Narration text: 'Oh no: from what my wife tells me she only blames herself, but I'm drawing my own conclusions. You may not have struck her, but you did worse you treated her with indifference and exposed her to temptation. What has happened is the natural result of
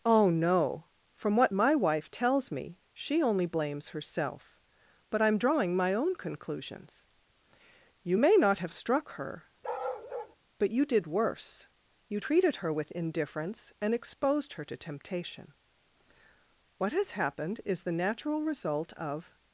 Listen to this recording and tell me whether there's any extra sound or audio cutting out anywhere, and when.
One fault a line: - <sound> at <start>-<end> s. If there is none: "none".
- bark at 9.6-10.4 s